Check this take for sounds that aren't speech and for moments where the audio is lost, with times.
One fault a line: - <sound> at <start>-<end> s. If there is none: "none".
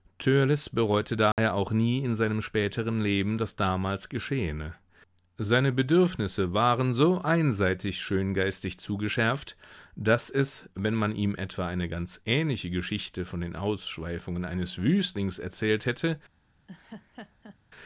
- dropout at 1.3-1.4 s
- laugh at 16.7-17.6 s